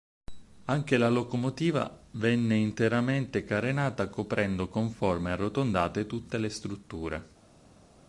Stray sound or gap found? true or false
false